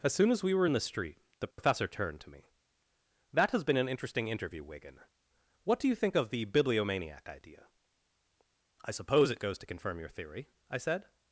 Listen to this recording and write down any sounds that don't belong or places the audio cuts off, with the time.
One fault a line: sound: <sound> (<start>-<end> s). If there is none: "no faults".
sound: dropout (1.5-1.6 s)